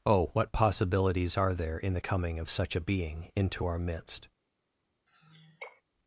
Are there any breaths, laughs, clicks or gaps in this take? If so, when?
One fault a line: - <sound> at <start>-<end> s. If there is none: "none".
- sigh at 5.1-5.8 s